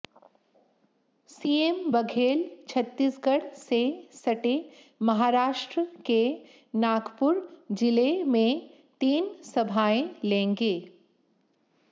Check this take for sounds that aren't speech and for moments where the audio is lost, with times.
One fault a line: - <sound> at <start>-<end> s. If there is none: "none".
none